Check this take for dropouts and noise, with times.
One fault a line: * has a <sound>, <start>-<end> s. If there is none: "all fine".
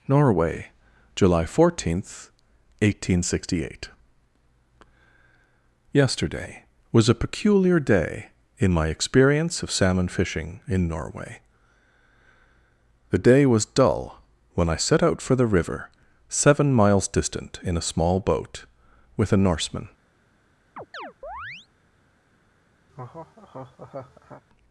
* has a chirp, 20.8-21.7 s
* has a laugh, 22.9-24.4 s